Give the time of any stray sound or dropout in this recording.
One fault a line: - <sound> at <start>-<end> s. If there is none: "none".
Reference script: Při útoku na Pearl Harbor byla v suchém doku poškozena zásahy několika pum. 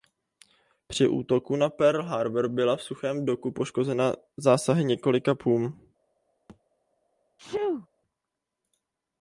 - thud at 6.5-6.6 s
- sneeze at 7.4-7.9 s